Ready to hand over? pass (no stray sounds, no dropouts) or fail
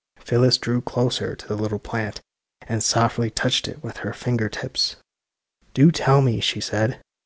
pass